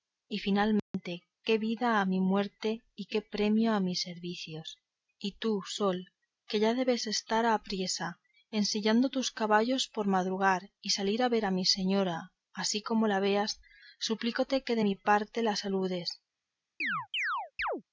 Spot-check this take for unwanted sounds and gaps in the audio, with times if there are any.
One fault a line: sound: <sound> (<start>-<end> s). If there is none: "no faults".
sound: dropout (0.8-0.9 s)
sound: chirp (16.8-17.8 s)